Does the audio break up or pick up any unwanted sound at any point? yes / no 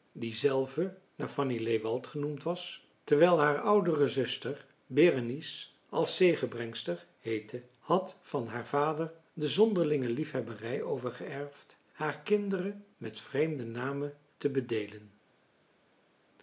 no